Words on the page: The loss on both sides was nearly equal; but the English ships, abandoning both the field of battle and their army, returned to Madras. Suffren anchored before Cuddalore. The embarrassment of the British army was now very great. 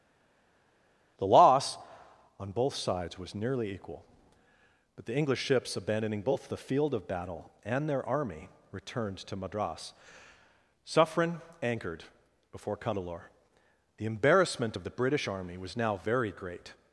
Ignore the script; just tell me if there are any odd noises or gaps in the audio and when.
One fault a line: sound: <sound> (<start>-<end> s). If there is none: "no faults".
no faults